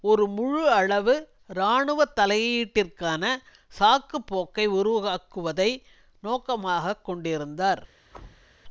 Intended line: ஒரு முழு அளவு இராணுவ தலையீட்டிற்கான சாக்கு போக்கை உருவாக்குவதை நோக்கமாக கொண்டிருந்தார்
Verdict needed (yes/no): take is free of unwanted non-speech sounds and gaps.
no